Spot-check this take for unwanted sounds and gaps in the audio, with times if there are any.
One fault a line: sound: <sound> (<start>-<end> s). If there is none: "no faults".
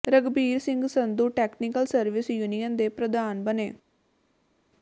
no faults